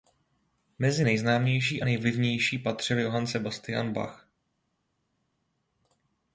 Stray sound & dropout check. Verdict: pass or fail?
pass